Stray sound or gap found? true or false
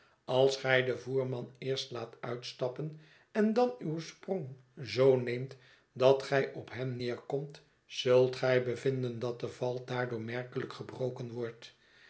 false